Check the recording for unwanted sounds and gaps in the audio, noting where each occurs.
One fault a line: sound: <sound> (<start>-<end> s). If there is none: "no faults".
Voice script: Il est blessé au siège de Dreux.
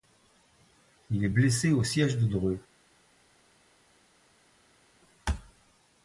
no faults